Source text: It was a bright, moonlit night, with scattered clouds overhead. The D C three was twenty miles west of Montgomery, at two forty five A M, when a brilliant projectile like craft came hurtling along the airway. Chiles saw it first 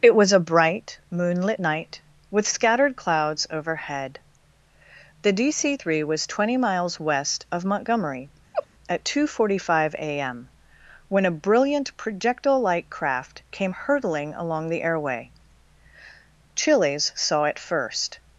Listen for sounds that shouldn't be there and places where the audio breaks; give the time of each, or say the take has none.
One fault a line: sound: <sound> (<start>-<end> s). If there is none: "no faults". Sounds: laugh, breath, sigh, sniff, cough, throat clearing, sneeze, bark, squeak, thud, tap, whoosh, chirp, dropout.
sound: laugh (8.5-8.7 s)